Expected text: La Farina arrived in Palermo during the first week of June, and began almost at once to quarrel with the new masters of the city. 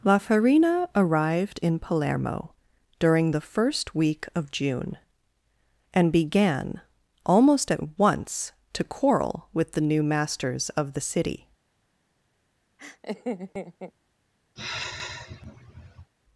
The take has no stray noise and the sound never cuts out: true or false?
false